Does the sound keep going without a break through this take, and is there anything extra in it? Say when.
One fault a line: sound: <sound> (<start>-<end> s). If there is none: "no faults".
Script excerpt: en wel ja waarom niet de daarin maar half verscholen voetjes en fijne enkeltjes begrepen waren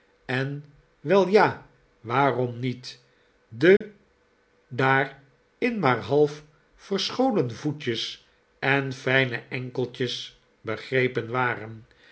sound: dropout (3.8-3.8 s)